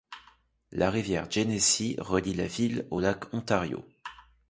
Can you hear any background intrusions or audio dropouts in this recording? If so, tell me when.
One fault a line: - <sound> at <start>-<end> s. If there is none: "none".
none